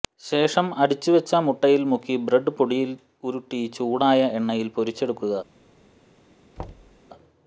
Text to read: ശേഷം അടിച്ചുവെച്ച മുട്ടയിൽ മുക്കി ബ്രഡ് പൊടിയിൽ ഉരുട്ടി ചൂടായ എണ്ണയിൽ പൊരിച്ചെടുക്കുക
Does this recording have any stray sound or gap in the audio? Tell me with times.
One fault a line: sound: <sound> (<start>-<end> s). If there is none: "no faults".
sound: thud (6.6-7.0 s)